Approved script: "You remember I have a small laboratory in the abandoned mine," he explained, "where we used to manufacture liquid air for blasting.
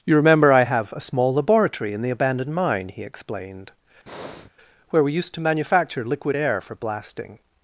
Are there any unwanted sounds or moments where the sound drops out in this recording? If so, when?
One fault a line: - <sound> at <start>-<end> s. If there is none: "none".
- breath at 4.1-4.5 s